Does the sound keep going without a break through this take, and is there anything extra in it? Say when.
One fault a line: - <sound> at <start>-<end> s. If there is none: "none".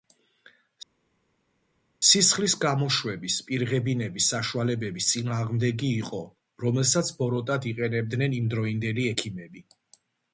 none